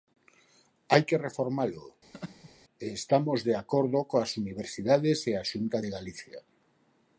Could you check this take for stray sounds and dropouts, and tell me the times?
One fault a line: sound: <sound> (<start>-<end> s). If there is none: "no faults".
sound: laugh (2.1-2.5 s)